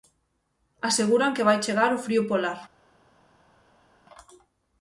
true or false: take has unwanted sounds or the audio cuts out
false